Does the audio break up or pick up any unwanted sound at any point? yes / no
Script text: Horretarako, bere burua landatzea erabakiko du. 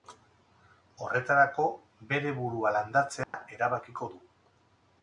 yes